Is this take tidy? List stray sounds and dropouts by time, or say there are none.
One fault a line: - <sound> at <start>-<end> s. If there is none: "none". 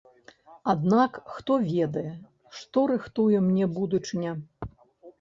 none